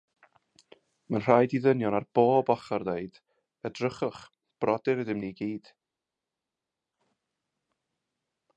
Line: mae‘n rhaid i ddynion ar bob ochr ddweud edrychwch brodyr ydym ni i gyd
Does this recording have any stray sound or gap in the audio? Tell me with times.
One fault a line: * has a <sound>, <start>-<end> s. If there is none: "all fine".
all fine